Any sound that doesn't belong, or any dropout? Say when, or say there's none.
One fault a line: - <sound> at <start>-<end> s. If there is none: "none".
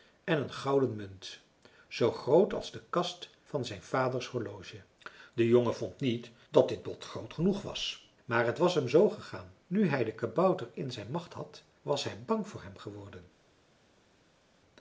none